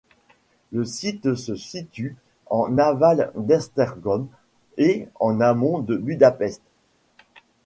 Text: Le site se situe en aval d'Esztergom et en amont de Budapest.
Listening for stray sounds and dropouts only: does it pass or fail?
pass